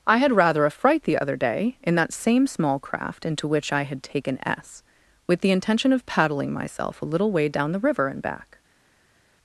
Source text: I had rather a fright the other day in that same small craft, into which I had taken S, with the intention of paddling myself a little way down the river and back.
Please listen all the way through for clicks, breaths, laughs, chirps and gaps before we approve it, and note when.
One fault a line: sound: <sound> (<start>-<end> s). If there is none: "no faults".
no faults